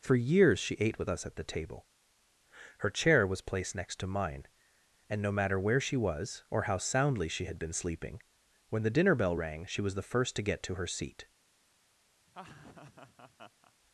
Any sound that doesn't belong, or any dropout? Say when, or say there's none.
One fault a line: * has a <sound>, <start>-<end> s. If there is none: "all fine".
* has a laugh, 12.3-13.7 s